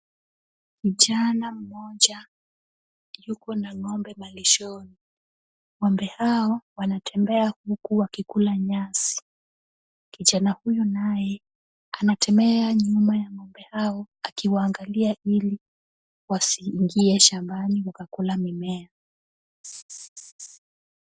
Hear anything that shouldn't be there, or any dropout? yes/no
yes